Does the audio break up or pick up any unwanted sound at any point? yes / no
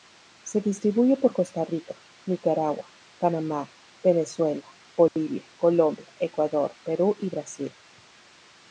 yes